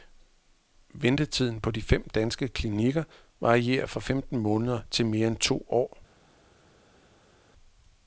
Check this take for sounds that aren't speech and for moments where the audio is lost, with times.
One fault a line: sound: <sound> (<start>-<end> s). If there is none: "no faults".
no faults